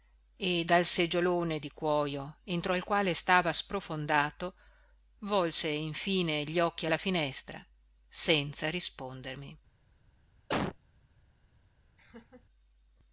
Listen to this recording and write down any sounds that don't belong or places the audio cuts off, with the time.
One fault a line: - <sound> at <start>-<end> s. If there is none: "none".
- cough at 10.5-10.8 s
- laugh at 12.0-12.5 s